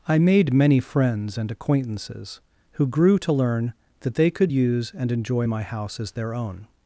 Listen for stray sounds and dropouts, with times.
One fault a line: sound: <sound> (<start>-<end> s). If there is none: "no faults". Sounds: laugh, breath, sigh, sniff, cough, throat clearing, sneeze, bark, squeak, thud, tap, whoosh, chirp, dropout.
no faults